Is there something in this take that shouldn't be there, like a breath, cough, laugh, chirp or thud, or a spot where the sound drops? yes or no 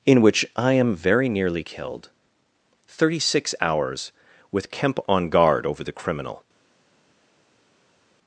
no